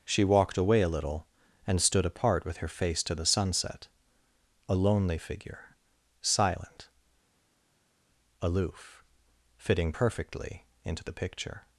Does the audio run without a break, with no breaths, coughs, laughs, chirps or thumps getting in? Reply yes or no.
yes